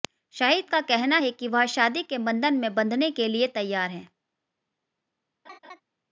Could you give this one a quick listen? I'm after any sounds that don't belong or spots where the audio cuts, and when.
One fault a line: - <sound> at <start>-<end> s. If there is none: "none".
- laugh at 5.4-5.8 s